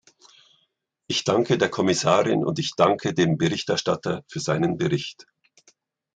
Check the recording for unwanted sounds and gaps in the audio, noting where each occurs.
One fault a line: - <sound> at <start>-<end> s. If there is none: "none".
none